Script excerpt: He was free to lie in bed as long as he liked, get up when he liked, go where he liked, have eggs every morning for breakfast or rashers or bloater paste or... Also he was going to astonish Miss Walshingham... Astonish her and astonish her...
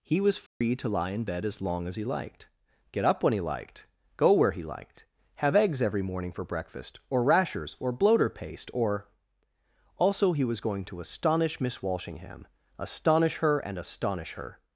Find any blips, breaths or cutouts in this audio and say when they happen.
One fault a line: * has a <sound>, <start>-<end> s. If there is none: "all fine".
* has a dropout, 0.5-0.6 s